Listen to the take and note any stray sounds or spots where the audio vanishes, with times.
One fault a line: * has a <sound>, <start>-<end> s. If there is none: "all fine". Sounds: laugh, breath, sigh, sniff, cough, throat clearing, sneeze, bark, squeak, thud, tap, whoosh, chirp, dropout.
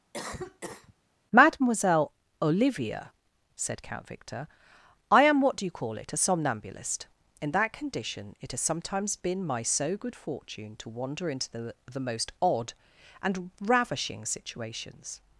* has a cough, 0.1-0.9 s